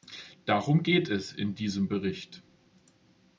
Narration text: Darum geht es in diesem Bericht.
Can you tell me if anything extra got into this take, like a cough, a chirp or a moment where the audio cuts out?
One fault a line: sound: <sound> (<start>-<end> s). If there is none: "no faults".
no faults